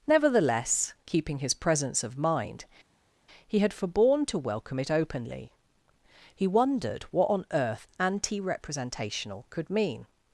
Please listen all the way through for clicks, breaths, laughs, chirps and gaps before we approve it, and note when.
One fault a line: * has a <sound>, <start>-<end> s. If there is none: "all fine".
all fine